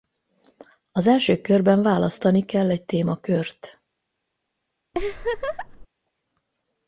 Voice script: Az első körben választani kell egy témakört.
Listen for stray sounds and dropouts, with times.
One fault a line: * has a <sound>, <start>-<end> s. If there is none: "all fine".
* has a laugh, 4.9-5.9 s